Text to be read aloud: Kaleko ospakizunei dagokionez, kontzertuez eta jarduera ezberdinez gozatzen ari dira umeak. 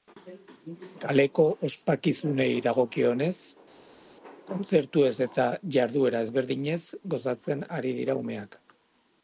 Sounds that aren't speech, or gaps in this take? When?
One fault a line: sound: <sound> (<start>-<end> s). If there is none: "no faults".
no faults